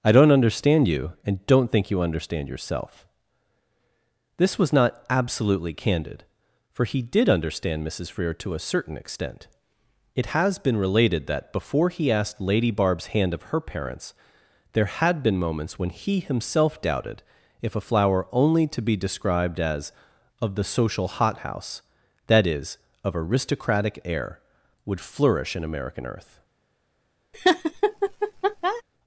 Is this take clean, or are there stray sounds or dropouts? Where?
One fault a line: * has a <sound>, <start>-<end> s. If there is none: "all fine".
* has a laugh, 27.3-28.8 s